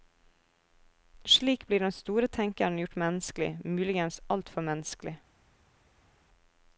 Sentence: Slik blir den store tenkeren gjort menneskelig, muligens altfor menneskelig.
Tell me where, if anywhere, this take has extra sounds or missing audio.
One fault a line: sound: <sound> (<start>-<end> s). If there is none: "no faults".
no faults